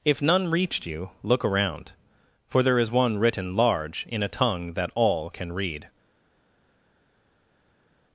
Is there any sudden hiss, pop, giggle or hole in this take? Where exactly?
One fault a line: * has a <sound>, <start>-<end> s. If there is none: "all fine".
all fine